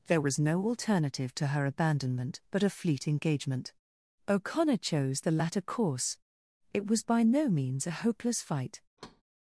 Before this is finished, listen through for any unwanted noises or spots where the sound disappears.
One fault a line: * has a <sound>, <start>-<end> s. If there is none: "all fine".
* has a thud, 9.0-9.2 s